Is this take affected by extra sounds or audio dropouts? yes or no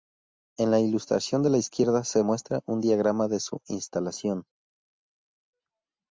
no